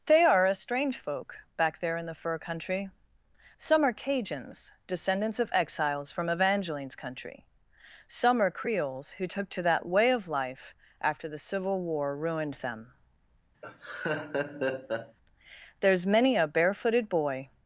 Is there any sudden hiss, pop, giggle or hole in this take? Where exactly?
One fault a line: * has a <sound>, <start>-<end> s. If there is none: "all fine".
* has a laugh, 13.6-15.2 s